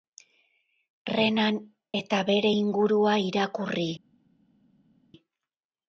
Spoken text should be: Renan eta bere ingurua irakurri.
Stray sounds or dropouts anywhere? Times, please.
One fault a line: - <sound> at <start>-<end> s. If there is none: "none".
none